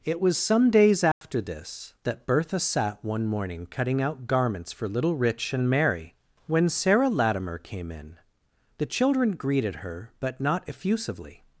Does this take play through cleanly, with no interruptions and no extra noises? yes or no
no